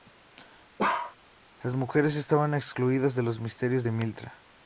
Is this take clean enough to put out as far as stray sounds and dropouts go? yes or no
no